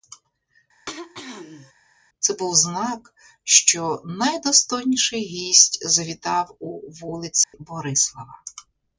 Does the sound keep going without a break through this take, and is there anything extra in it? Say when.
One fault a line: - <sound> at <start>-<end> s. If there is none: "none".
- throat clearing at 0.9-1.7 s
- dropout at 7.4-7.5 s